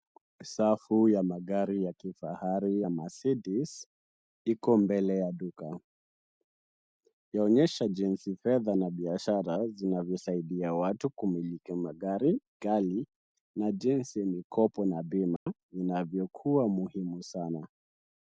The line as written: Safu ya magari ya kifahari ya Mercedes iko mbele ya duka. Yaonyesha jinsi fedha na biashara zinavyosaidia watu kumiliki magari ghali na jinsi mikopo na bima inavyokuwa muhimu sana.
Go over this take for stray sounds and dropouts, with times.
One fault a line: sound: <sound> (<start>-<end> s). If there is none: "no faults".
sound: dropout (15.4-15.5 s)